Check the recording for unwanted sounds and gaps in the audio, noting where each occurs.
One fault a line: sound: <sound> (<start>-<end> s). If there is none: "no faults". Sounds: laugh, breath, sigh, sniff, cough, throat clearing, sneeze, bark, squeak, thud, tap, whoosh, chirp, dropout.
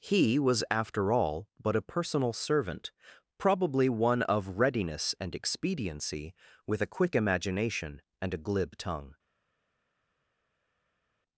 no faults